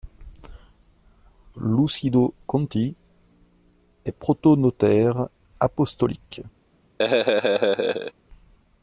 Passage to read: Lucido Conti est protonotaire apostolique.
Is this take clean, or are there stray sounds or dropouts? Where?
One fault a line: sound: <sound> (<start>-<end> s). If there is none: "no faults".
sound: laugh (7.0-8.1 s)